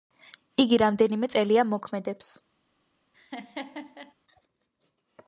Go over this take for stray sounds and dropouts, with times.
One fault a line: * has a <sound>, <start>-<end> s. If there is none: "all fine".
* has a laugh, 3.1-4.1 s